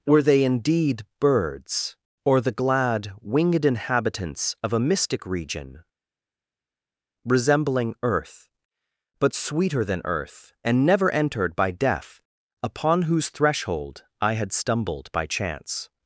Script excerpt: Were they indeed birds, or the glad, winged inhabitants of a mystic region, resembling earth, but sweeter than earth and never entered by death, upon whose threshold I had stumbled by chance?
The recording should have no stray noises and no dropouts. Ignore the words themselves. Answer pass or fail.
pass